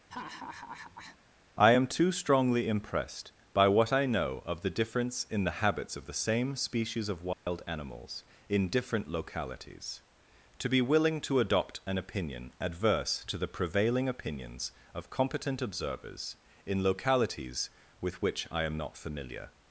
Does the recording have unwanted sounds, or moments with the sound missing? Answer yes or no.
yes